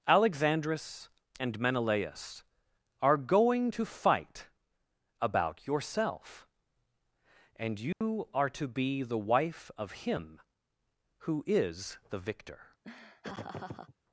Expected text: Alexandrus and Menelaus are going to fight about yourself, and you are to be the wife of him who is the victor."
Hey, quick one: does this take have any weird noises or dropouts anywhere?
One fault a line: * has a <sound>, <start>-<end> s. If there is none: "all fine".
* has a dropout, 7.9-8.0 s
* has a laugh, 12.8-13.9 s